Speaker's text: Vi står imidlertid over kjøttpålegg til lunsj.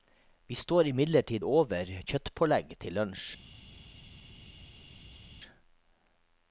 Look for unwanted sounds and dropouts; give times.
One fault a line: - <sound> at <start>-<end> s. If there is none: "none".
none